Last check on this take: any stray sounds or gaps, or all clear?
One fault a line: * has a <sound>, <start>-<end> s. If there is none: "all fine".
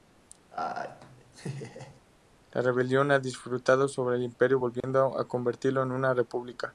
* has a laugh, 0.5-2.0 s
* has a dropout, 4.8-4.8 s